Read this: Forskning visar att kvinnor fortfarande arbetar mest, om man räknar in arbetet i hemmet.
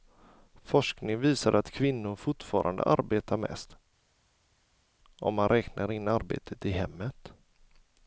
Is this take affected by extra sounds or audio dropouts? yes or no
no